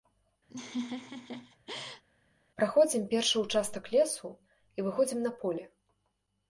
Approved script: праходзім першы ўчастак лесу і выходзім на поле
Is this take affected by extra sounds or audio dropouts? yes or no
yes